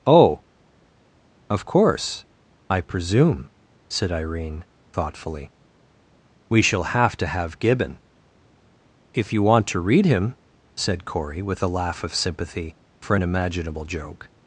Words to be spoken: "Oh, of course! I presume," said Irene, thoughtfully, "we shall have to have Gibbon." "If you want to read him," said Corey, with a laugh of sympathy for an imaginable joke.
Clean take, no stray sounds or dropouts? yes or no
yes